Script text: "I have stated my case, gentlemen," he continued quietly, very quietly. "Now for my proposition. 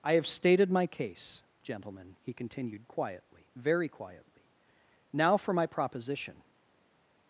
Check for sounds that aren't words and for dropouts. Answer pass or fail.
pass